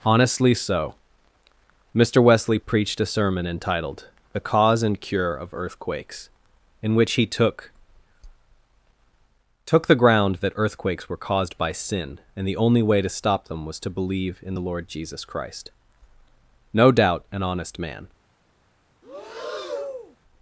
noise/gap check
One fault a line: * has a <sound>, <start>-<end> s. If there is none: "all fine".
* has a breath, 19.0-20.2 s